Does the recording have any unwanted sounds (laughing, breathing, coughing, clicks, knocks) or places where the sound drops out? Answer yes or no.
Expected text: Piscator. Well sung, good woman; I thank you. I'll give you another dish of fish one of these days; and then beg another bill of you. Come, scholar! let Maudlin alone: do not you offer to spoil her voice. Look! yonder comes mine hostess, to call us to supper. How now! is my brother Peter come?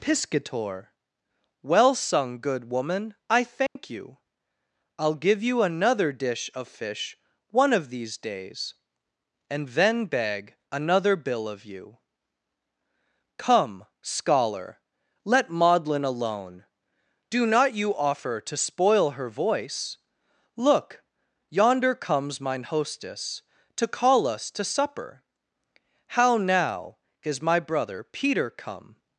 yes